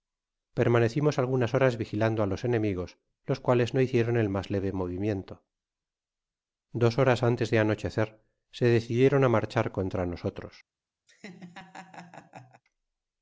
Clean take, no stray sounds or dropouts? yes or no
no